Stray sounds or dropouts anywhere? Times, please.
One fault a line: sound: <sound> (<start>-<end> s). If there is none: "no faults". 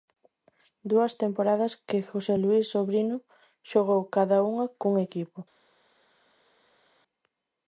no faults